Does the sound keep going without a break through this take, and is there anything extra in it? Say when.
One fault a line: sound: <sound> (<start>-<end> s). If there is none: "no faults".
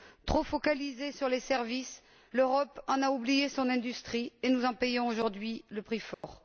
sound: dropout (6.1-6.2 s)